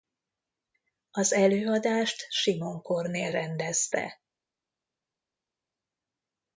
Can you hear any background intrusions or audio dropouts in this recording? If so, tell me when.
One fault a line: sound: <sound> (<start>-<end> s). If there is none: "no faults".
no faults